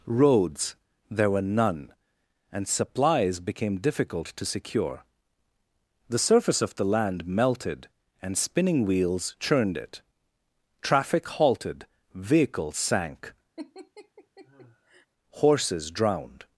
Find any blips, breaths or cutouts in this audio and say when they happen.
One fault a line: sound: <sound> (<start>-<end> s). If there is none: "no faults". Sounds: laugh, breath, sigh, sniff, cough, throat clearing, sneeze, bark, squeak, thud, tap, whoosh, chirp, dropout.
sound: laugh (13.6-15.1 s)